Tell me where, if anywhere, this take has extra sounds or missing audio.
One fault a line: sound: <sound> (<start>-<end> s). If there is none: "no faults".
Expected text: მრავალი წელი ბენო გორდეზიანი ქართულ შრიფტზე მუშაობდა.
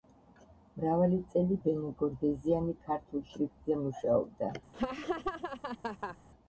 sound: laugh (4.7-6.2 s)